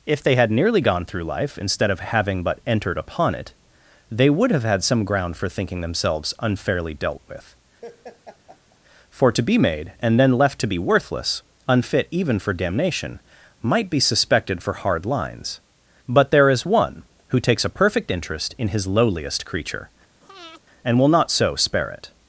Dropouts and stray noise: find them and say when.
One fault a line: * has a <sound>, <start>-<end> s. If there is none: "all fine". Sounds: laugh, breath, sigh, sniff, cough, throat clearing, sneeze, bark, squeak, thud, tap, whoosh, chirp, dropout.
* has a laugh, 7.8-8.8 s
* has a breath, 20.2-20.6 s